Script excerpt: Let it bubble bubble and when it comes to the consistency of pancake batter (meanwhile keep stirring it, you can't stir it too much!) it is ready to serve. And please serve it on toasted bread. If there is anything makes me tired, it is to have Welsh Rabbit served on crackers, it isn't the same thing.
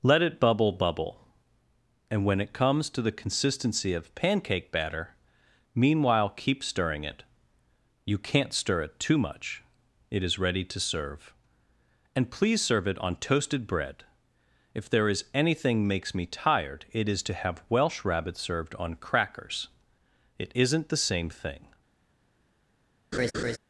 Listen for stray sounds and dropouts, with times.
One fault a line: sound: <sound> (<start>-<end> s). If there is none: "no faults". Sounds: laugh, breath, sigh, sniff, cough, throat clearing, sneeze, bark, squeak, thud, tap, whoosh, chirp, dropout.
sound: laugh (23.1-23.6 s)